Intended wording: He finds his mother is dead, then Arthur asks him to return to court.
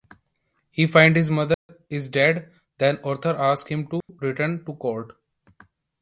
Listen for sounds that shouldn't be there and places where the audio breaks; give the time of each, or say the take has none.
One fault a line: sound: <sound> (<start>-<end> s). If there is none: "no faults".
sound: dropout (1.5-1.7 s)
sound: dropout (4.0-4.1 s)